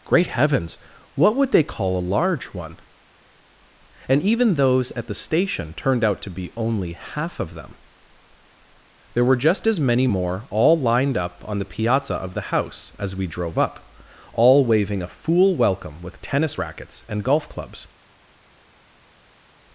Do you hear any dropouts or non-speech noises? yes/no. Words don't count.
no